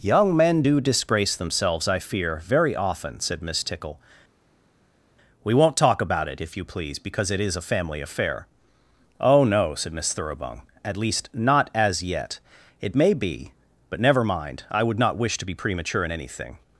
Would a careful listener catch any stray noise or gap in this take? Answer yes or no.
no